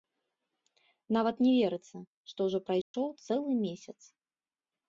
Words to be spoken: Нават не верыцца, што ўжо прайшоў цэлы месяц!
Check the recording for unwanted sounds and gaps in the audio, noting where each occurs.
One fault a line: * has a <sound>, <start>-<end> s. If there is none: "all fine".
* has a dropout, 2.8-2.9 s